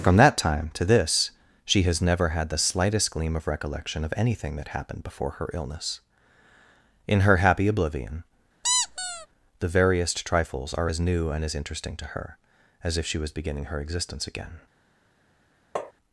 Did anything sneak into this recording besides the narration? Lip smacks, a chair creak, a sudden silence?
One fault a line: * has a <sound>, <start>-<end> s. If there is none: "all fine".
* has a squeak, 8.6-9.3 s
* has a tap, 15.8-15.9 s